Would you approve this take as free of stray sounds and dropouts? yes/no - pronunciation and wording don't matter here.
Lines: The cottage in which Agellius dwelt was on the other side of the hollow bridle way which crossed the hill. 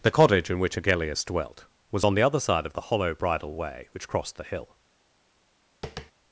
no